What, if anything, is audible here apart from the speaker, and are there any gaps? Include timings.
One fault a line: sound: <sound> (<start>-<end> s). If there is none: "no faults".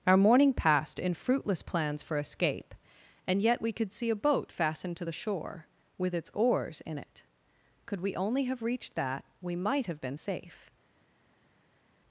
no faults